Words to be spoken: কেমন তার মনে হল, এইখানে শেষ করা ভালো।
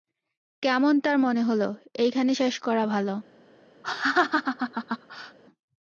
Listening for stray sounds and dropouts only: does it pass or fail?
fail